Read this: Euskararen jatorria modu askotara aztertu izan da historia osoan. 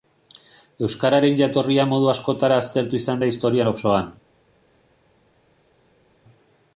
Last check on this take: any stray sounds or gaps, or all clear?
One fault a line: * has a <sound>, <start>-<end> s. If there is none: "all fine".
all fine